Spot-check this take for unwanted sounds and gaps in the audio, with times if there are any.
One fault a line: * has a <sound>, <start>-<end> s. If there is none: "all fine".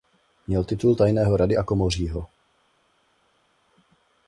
all fine